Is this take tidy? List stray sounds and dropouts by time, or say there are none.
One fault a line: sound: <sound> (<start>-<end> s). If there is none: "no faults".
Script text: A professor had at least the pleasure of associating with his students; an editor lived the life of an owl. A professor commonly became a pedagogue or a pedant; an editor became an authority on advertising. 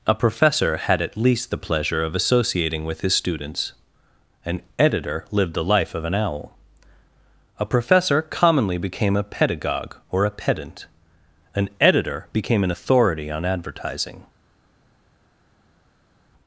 no faults